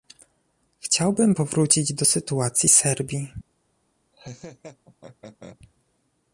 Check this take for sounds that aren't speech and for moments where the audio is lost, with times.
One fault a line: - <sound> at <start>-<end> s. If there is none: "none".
- laugh at 4.1-5.6 s